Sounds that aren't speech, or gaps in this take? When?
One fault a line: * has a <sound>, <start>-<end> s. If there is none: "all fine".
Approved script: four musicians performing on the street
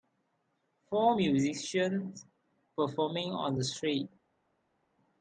all fine